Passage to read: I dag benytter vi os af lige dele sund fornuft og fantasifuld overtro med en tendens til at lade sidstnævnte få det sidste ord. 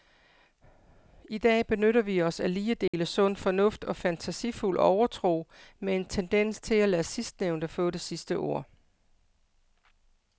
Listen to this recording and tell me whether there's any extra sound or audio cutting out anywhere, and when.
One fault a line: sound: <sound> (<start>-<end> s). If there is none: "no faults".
sound: dropout (2.9-2.9 s)